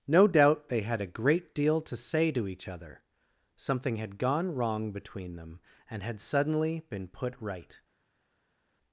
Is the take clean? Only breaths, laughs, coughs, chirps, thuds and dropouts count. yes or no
yes